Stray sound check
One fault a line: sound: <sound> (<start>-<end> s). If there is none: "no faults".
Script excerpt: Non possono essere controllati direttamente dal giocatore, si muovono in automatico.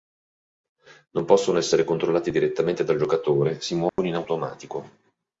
sound: dropout (3.9-4.0 s)